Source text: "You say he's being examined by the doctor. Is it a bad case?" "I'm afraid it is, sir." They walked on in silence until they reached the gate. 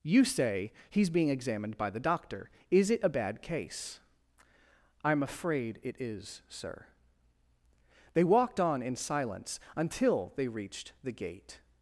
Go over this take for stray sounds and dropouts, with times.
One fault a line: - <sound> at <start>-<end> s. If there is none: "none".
none